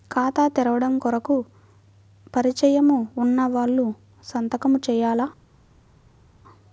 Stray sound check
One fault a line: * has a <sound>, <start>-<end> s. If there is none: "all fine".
all fine